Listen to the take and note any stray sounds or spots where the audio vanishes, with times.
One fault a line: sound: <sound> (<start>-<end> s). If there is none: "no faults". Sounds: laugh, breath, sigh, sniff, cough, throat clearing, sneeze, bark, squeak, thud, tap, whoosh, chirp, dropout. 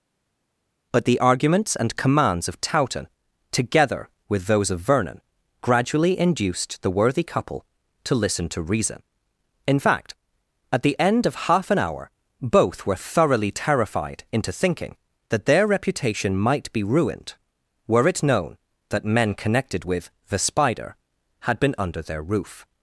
no faults